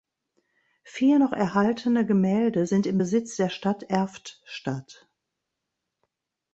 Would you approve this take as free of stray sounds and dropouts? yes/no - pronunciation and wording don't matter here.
yes